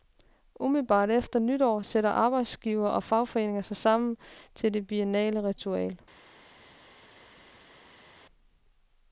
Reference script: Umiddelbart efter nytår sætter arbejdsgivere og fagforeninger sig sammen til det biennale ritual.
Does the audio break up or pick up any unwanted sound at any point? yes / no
no